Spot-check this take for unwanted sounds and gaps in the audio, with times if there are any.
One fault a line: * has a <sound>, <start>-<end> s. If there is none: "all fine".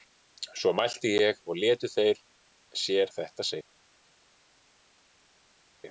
all fine